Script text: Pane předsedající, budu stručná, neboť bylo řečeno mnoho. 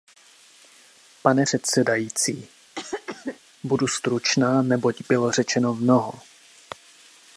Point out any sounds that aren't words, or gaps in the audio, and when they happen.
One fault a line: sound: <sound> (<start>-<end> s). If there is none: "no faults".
sound: cough (2.8-3.4 s)